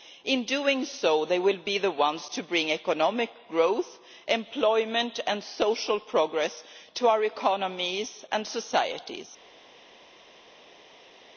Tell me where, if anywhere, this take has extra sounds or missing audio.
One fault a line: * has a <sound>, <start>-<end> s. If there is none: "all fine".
all fine